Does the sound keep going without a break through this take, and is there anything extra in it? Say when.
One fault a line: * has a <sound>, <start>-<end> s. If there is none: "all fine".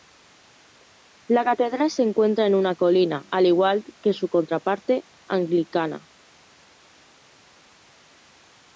all fine